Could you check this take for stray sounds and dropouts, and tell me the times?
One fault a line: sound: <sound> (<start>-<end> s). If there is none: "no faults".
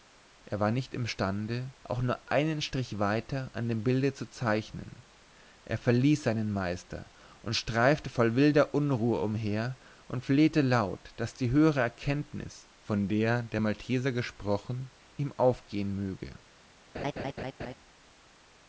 sound: laugh (16.9-17.7 s)